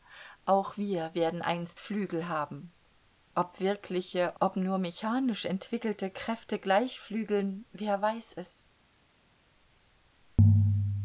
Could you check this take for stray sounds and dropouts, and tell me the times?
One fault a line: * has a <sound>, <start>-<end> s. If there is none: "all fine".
all fine